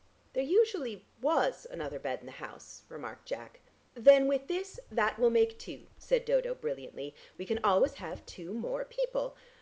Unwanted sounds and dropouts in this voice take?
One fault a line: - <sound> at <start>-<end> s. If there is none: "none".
none